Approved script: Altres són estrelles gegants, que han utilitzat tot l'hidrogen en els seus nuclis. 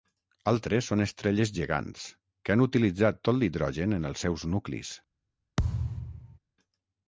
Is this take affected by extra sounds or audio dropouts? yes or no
yes